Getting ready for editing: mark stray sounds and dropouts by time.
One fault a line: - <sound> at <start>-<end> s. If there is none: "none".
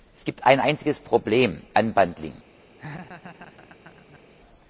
- laugh at 2.8-4.2 s